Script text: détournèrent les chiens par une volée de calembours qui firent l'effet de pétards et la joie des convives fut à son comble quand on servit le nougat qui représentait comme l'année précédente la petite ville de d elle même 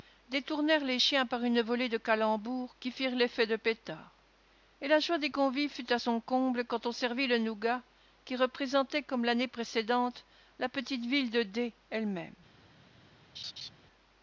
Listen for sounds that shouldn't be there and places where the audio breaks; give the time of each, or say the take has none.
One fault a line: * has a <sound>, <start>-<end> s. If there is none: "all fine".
* has a laugh, 13.4-13.7 s